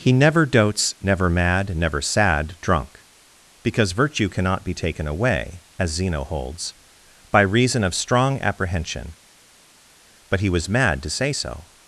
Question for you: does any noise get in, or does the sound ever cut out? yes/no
no